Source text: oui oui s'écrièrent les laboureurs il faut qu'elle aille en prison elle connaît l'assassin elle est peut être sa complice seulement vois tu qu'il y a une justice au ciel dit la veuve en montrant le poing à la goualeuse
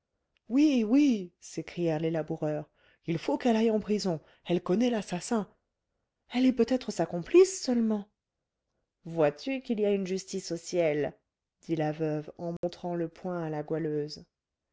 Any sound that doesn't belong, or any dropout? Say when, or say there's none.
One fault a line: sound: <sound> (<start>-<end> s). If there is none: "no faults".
sound: dropout (12.6-12.6 s)